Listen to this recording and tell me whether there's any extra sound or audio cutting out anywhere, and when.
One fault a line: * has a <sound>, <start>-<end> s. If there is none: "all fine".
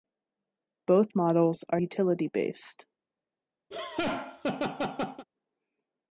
* has a laugh, 3.7-5.3 s